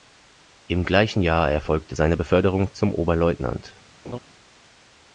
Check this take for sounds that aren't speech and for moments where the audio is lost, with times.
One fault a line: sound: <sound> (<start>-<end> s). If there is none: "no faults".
sound: laugh (4.0-4.2 s)